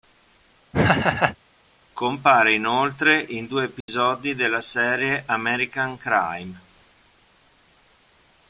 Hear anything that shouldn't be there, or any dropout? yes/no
yes